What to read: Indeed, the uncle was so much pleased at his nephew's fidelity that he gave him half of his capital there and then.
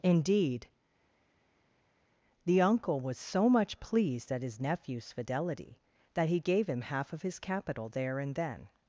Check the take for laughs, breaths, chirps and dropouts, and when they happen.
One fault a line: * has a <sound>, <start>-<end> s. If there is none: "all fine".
all fine